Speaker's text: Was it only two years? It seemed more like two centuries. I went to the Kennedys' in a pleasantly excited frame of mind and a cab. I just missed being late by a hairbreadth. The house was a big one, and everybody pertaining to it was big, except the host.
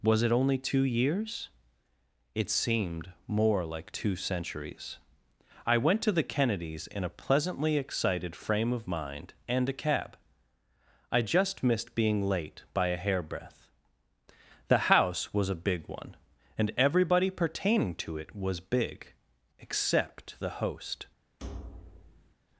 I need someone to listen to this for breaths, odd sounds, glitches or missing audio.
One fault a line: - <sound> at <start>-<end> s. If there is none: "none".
- thud at 21.4-22.3 s